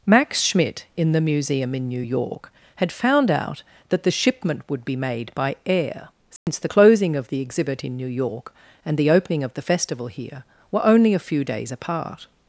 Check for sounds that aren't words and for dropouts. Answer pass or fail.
fail